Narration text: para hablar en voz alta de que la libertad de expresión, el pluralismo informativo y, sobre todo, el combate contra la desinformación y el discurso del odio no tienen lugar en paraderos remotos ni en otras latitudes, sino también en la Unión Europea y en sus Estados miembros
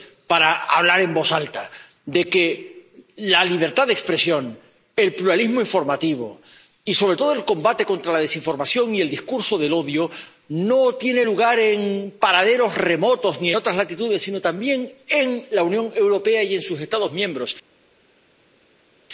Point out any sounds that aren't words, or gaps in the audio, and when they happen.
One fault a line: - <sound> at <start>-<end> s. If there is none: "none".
none